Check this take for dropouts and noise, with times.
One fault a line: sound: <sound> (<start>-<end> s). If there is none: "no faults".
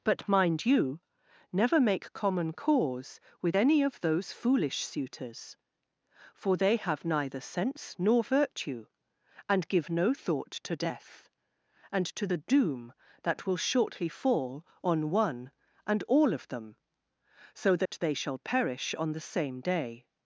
sound: dropout (17.9-17.9 s)